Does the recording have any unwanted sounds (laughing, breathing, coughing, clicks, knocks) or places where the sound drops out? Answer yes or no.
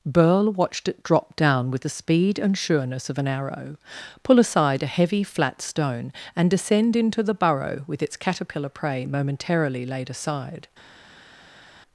no